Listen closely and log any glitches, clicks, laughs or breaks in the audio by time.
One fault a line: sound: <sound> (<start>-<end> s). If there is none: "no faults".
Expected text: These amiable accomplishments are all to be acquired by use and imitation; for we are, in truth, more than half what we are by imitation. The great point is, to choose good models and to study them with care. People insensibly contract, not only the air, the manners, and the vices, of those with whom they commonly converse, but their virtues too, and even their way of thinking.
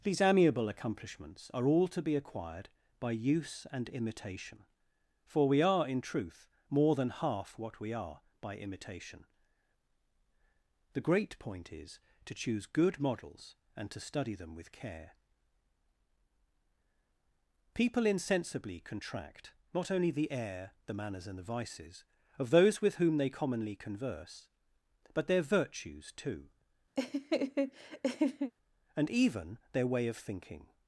sound: laugh (27.0-28.5 s)